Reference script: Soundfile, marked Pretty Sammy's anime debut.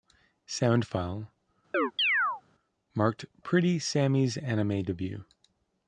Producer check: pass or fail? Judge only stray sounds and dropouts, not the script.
fail